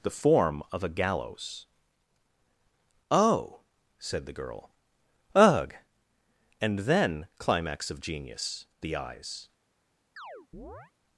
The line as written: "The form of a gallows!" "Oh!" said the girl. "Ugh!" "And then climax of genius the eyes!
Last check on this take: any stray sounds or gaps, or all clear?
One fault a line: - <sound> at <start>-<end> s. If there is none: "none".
- chirp at 10.2-10.9 s